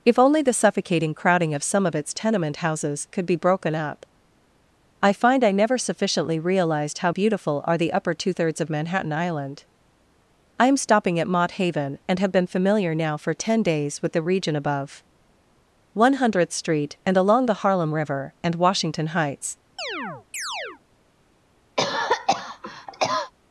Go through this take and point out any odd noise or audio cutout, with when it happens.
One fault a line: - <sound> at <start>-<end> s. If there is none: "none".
- chirp at 19.8-20.8 s
- cough at 21.8-23.3 s